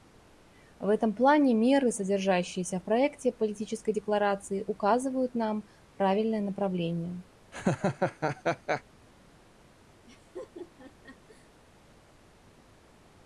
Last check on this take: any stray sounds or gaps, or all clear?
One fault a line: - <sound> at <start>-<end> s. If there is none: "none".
- laugh at 7.5-8.8 s
- laugh at 10.1-11.5 s